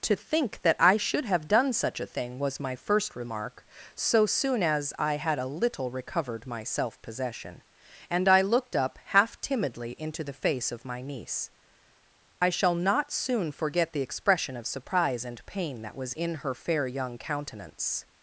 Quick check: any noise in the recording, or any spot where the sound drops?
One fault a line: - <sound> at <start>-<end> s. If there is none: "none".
none